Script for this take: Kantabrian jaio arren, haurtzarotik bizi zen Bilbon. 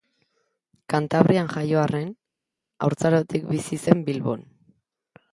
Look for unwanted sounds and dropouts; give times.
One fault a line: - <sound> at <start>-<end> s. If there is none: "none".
none